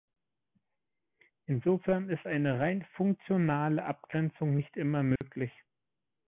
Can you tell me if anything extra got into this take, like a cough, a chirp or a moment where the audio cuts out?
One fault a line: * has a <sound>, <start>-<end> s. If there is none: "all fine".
* has a dropout, 5.2-5.2 s